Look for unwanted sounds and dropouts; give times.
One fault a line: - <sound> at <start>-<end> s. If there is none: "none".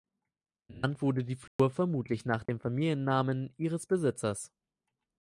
- dropout at 1.5-1.6 s
- dropout at 2.5-2.5 s